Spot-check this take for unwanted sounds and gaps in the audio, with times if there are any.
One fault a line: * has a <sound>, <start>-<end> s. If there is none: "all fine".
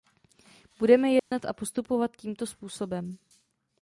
* has a dropout, 1.2-1.3 s